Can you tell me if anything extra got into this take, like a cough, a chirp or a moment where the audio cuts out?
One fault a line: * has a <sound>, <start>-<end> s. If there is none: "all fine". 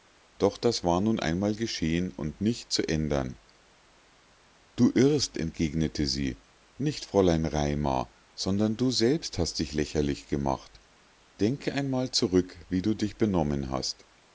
all fine